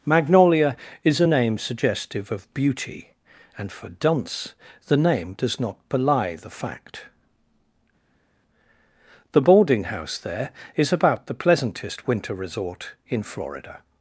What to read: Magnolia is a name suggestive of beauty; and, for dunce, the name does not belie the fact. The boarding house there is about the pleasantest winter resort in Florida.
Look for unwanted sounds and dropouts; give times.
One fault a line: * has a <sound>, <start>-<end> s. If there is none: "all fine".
all fine